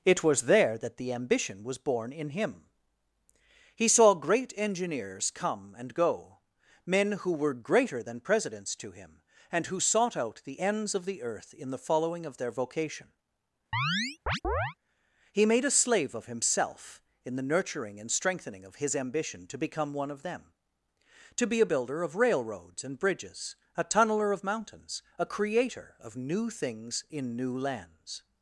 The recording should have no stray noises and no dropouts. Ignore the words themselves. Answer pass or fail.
fail